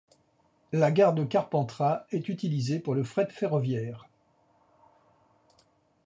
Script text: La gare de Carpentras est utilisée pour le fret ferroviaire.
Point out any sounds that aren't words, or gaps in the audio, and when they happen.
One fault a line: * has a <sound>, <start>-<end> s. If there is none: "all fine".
all fine